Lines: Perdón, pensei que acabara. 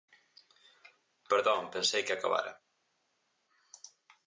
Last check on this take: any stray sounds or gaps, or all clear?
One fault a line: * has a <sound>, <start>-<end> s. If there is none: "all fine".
all fine